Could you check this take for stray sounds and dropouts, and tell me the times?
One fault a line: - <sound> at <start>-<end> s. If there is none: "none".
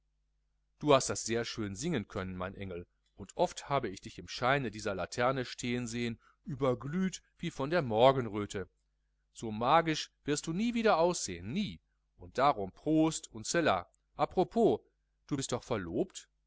none